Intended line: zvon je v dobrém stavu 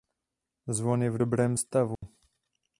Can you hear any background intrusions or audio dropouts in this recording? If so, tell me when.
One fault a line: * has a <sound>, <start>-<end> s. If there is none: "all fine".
* has a dropout, 2.0-2.0 s